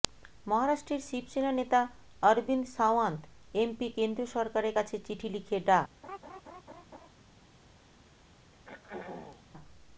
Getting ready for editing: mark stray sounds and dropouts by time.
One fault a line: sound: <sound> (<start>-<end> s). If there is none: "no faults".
sound: laugh (6.0-7.1 s)
sound: throat clearing (8.5-9.5 s)